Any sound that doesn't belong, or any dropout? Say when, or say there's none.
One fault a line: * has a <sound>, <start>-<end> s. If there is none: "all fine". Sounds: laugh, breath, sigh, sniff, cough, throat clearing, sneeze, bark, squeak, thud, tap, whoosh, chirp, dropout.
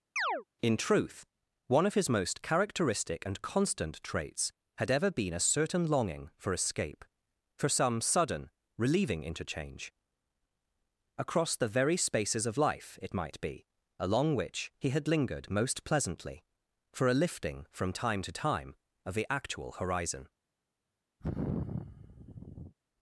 * has a chirp, 0.2-0.4 s
* has a sigh, 21.2-22.7 s